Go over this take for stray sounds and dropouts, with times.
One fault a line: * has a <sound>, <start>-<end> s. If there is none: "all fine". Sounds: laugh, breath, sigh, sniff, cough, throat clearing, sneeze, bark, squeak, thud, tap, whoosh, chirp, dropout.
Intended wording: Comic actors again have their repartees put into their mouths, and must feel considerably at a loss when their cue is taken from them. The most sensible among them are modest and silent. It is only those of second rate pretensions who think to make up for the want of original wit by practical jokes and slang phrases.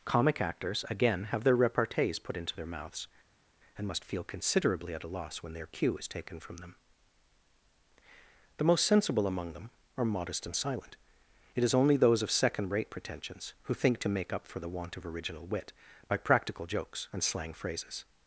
all fine